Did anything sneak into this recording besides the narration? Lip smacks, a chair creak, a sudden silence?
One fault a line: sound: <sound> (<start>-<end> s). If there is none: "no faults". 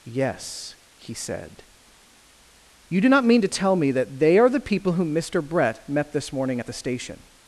no faults